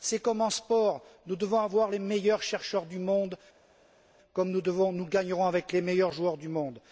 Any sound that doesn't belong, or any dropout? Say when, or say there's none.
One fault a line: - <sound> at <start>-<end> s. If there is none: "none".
none